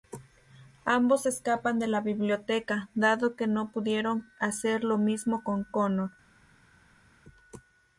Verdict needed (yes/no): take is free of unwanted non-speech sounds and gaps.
yes